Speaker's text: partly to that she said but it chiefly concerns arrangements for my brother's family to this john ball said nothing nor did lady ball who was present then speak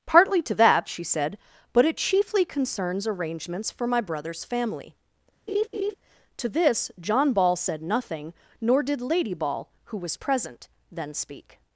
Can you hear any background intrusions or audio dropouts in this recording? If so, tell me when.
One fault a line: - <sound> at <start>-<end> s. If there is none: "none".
- laugh at 5.5-6.0 s